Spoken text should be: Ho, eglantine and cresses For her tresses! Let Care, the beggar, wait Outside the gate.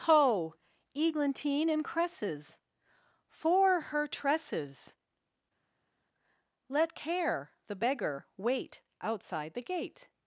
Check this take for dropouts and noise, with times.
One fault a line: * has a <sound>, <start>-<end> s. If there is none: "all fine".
all fine